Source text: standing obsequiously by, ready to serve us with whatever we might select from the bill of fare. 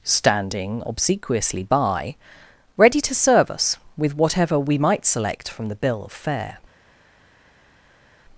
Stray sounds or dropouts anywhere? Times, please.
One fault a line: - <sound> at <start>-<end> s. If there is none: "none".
none